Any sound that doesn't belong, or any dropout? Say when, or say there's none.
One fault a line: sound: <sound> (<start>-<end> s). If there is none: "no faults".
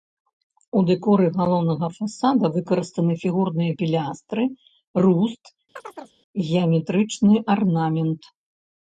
sound: chirp (5.8-6.2 s)